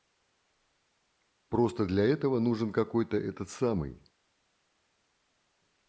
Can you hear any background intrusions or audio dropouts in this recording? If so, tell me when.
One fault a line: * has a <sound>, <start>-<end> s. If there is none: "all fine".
all fine